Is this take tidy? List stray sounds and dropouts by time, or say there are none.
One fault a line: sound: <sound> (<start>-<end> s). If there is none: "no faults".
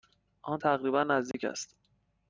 sound: dropout (1.3-1.3 s)